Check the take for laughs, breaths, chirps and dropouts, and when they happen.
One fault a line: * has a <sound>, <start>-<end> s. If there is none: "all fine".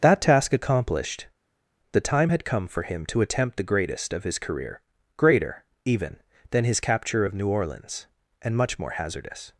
all fine